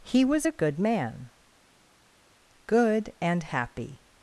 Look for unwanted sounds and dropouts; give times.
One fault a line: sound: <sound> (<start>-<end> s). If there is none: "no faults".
no faults